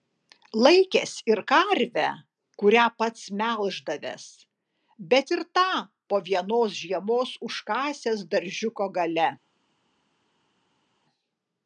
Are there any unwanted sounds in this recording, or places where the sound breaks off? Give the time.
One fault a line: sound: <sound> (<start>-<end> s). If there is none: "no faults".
no faults